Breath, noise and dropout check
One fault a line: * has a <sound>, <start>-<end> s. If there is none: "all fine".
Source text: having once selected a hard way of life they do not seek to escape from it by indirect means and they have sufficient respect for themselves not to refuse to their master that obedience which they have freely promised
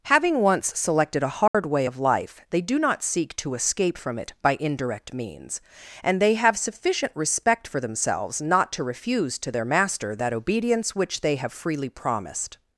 * has a dropout, 1.5-1.5 s